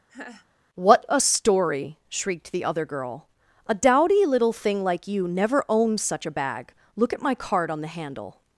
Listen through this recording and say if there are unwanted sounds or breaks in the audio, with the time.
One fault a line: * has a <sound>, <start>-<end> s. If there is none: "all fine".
* has a laugh, 0.1-0.5 s